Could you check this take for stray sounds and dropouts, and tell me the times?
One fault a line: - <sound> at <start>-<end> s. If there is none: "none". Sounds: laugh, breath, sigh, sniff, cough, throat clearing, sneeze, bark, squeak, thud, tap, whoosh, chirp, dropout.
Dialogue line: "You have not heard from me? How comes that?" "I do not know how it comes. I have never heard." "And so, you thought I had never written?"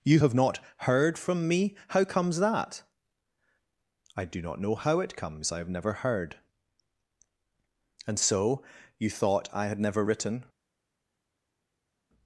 none